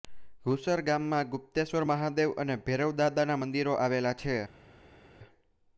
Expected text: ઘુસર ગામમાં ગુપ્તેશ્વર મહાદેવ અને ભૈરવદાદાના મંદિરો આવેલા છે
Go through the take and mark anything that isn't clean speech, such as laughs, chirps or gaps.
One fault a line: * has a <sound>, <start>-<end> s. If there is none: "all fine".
all fine